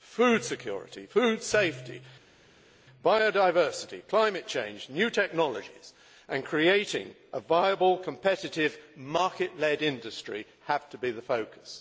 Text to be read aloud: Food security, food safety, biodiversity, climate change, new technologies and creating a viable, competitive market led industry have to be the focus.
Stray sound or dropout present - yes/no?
no